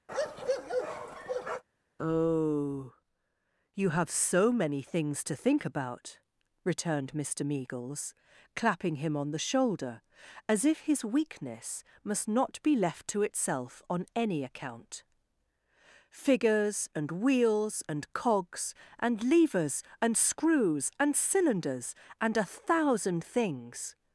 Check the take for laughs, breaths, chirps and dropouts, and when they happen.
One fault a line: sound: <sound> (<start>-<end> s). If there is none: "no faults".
sound: bark (0.1-1.6 s)